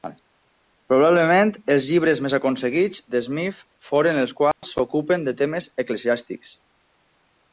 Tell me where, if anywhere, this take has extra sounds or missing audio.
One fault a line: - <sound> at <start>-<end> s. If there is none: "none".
- dropout at 4.5-4.6 s